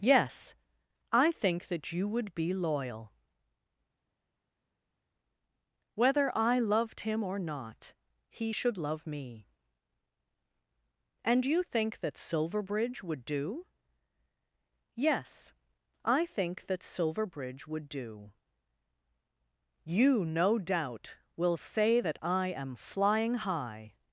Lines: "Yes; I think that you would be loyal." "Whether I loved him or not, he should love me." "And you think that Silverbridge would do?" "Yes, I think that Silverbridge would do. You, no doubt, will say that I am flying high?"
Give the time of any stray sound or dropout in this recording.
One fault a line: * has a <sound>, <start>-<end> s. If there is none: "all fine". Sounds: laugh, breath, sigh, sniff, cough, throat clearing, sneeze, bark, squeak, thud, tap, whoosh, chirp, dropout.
all fine